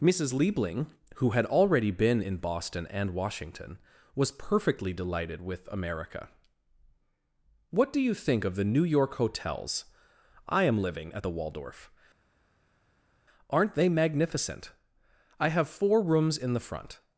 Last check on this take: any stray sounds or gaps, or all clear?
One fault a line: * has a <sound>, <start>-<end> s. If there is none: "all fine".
all fine